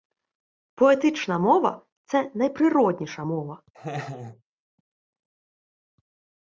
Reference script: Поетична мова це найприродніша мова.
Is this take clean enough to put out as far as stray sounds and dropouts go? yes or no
no